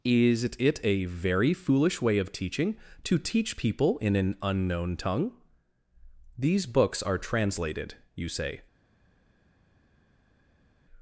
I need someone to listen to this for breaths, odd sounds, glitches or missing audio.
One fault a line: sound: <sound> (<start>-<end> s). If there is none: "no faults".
no faults